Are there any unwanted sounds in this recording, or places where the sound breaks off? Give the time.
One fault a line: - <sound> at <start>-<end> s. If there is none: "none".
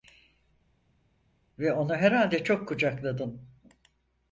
none